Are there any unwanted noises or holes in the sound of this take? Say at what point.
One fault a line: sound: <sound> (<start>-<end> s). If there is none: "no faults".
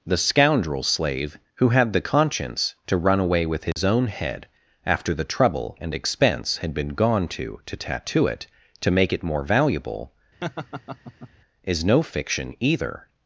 sound: dropout (3.7-3.8 s)
sound: laugh (10.4-11.3 s)